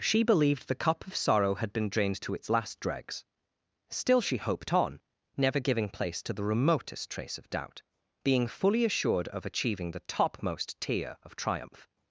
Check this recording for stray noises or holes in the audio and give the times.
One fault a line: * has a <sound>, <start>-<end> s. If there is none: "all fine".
all fine